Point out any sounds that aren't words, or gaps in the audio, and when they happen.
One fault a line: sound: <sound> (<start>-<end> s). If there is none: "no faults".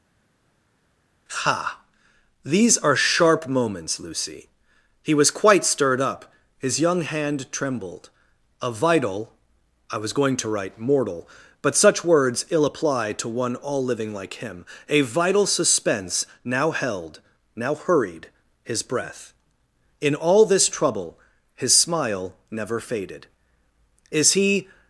no faults